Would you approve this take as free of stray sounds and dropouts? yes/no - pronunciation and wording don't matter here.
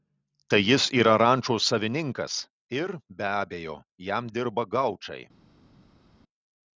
yes